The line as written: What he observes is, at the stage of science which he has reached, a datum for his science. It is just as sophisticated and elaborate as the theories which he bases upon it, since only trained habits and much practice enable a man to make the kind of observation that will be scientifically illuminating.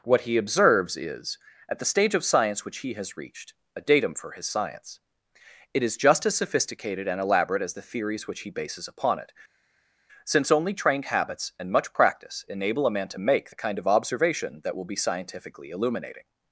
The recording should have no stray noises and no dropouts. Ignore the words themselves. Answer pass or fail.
pass